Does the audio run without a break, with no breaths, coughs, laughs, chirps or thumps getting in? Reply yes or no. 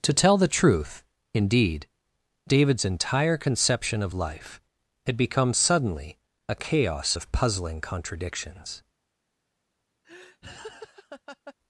no